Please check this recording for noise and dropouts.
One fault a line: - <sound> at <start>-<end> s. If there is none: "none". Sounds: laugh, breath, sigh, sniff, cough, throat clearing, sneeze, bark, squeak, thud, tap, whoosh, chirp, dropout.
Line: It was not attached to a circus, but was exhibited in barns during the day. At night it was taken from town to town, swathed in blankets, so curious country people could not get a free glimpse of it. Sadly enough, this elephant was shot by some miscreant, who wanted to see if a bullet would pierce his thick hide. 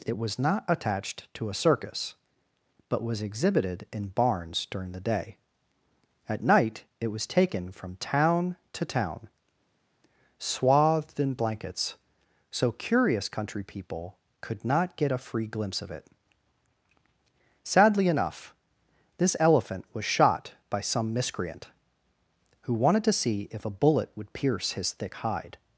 none